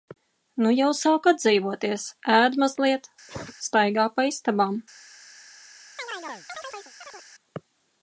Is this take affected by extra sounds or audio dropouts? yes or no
yes